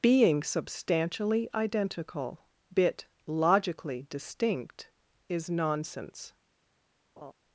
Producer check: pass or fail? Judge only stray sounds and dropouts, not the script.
fail